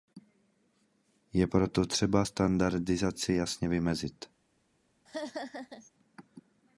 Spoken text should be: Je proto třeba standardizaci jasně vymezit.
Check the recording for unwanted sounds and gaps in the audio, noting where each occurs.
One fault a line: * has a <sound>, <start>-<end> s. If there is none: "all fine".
* has a laugh, 5.1-5.9 s